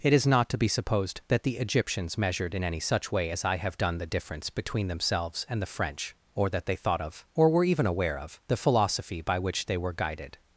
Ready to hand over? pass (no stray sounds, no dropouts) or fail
pass